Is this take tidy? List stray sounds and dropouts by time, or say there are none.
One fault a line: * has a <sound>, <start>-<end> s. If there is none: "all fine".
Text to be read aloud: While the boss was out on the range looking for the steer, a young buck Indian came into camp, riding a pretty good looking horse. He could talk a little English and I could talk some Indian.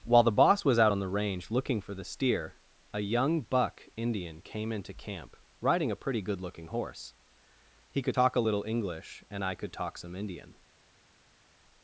all fine